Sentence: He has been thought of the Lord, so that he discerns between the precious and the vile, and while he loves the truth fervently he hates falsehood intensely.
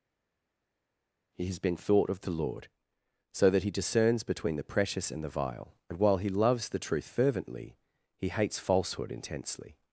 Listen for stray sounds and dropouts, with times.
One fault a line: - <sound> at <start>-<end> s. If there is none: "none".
none